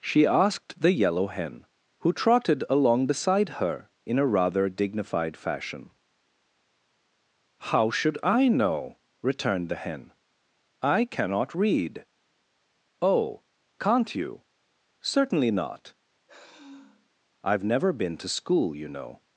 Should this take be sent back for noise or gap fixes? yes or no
yes